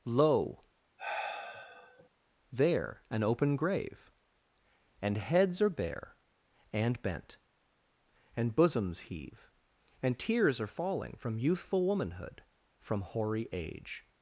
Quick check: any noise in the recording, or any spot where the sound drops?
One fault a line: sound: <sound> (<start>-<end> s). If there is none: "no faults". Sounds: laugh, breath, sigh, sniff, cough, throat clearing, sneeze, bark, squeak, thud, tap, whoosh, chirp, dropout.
sound: sigh (1.0-2.1 s)